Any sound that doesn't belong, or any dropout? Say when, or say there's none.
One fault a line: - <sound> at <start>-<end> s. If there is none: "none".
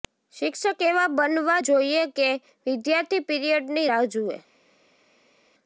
none